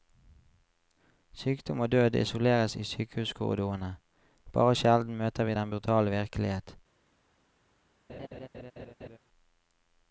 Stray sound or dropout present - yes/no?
yes